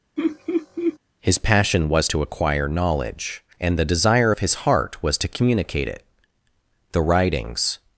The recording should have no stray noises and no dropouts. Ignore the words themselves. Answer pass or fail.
fail